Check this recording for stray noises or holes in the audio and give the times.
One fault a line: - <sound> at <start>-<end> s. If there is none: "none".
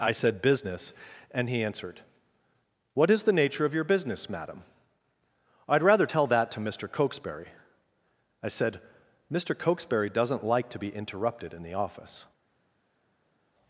none